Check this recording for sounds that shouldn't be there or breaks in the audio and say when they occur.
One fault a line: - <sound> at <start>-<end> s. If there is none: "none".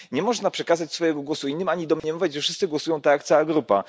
- dropout at 2.0-2.0 s